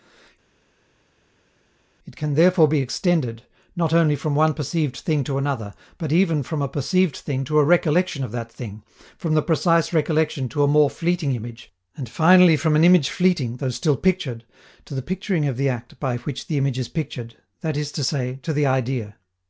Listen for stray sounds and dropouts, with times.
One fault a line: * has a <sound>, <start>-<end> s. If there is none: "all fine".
all fine